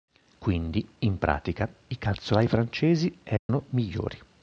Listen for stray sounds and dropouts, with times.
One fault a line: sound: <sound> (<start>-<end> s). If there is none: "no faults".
sound: dropout (3.4-3.5 s)